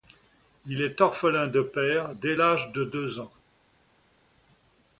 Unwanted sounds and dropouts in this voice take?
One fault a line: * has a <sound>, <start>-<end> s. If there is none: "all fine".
all fine